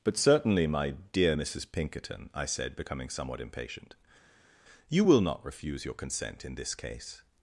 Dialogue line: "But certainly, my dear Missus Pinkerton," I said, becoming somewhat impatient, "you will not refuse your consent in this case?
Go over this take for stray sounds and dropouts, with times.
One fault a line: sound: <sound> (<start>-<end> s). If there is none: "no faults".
no faults